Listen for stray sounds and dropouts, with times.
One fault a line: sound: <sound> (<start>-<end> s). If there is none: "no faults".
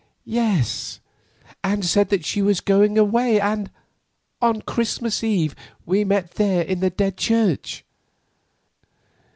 no faults